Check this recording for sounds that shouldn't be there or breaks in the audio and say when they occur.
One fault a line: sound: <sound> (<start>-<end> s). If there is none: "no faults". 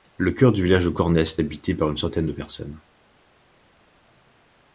no faults